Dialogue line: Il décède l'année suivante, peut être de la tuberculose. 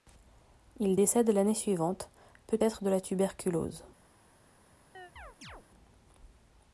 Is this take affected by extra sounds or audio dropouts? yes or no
yes